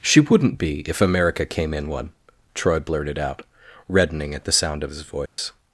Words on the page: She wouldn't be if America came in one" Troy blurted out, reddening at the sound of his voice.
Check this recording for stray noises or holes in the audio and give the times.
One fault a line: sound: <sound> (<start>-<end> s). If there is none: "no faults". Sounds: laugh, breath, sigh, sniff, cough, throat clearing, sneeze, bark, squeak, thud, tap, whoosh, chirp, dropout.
sound: dropout (5.3-5.4 s)